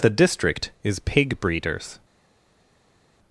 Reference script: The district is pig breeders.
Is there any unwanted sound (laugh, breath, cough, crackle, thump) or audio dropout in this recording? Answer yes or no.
no